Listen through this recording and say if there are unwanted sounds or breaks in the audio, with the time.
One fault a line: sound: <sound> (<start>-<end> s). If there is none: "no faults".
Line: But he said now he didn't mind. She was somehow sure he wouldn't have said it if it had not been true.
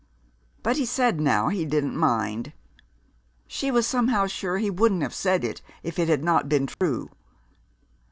sound: dropout (6.7-6.8 s)